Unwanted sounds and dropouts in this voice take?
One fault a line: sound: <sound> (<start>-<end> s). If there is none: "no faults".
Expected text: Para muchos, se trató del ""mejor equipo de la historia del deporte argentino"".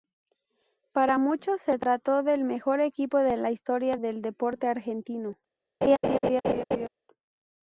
sound: laugh (5.8-6.9 s)